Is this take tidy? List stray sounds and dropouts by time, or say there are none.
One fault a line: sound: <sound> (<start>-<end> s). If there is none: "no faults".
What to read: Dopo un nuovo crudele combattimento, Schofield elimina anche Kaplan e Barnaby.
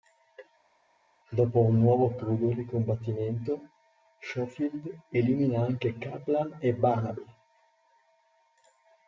no faults